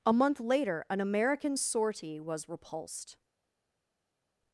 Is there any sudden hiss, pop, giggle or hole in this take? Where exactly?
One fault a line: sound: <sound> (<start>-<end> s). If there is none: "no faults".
no faults